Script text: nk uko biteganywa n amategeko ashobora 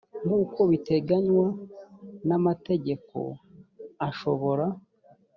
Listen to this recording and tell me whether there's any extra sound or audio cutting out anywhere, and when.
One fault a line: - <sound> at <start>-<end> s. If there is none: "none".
none